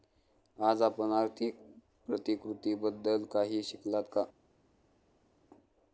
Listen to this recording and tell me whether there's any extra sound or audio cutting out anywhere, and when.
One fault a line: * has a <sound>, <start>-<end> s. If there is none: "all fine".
all fine